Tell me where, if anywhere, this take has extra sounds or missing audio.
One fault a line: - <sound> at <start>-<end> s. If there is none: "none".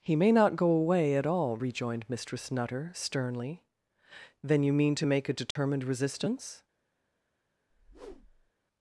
- dropout at 5.5-5.6 s
- whoosh at 7.7-8.5 s